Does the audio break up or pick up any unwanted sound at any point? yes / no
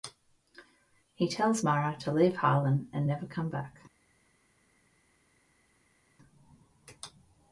no